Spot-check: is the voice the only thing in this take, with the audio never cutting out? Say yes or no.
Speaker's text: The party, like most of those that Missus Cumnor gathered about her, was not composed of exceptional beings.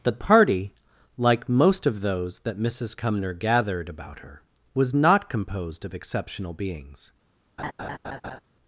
no